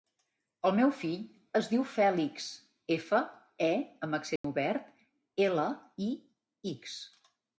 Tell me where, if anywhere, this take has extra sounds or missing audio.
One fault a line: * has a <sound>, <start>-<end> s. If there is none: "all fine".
* has a dropout, 4.4-4.4 s